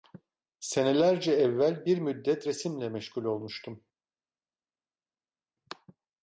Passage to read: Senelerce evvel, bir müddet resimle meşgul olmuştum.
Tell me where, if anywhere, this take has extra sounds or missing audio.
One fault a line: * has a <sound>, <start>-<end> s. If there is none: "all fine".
all fine